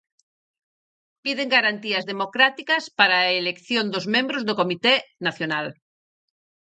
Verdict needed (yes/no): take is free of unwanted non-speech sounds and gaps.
yes